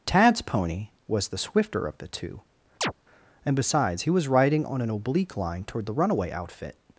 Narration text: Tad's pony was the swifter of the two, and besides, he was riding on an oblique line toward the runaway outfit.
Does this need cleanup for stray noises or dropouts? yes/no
yes